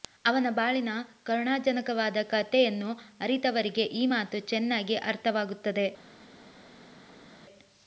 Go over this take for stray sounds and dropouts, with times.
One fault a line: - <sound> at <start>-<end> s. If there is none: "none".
none